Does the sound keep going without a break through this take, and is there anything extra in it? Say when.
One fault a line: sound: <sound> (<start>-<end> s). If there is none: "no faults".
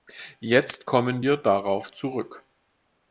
no faults